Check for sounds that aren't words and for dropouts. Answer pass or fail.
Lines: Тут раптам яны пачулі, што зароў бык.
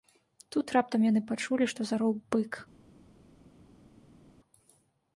pass